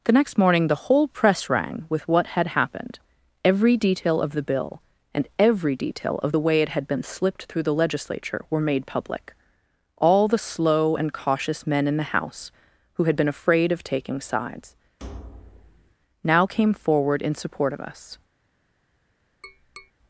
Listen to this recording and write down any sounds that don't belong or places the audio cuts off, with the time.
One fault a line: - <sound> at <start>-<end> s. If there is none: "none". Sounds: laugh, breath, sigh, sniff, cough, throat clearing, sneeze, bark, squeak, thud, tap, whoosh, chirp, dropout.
- thud at 15.0-15.9 s
- tap at 19.4-19.9 s